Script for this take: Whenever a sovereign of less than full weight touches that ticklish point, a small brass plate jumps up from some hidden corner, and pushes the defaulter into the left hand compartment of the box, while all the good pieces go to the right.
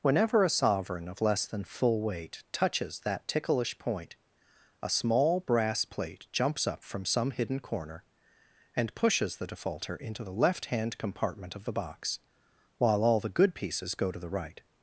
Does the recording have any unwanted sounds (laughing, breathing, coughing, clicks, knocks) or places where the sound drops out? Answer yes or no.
no